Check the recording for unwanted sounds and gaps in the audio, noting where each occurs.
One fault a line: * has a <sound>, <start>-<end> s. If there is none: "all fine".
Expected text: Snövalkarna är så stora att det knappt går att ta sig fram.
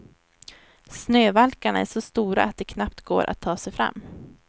all fine